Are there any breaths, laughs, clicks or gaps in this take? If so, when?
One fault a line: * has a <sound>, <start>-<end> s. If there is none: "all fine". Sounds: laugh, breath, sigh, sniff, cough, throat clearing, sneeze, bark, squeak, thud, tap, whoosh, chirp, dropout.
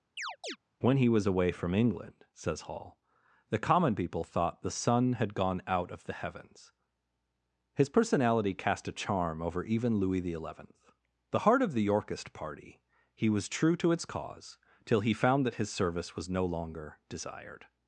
* has a chirp, 0.2-0.6 s